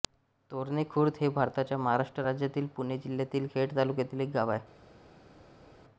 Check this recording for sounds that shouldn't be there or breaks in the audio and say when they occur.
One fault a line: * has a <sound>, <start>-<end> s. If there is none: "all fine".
all fine